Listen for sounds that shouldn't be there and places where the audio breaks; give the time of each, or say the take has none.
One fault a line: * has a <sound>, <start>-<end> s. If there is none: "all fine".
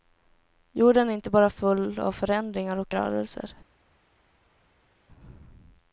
all fine